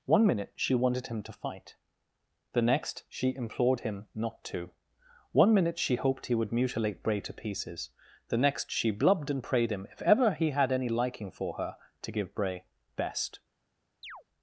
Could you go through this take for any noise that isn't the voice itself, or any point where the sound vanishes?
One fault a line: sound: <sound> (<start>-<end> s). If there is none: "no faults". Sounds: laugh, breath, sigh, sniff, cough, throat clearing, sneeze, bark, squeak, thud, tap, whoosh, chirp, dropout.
sound: chirp (14.0-14.2 s)